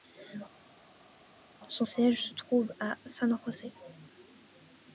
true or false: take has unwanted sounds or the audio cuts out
false